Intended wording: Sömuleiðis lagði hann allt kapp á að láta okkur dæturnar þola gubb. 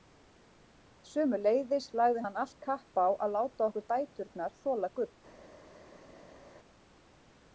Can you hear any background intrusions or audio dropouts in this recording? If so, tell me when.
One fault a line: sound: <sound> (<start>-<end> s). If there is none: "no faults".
no faults